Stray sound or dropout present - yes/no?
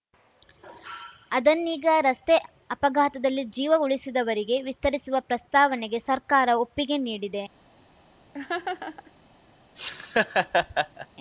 yes